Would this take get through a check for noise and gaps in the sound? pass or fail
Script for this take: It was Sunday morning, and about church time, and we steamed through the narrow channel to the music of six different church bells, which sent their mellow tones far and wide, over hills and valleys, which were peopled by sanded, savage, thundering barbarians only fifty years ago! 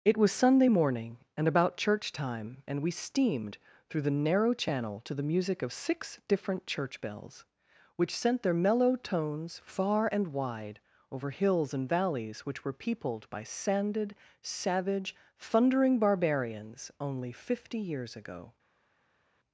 pass